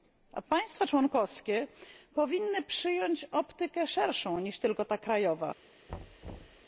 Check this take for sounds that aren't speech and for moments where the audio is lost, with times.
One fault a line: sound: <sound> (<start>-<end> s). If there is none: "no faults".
sound: thud (5.9-6.7 s)